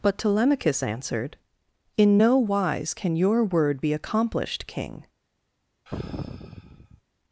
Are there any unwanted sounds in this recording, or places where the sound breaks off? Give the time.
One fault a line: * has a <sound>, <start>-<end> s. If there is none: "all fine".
* has a sigh, 5.9-7.0 s